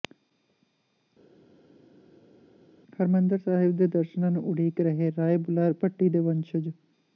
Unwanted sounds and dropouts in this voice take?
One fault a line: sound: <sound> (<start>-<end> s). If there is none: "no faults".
no faults